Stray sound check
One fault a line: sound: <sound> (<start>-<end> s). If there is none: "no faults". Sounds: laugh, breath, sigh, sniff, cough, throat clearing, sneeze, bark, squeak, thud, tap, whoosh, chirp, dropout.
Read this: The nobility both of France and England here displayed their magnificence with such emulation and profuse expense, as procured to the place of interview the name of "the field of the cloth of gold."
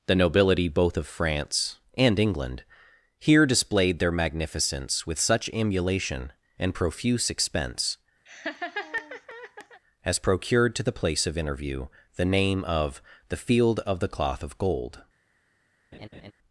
sound: laugh (8.3-9.8 s)
sound: laugh (15.9-16.3 s)